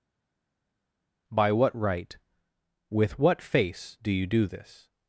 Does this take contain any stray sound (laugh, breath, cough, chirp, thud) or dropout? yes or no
no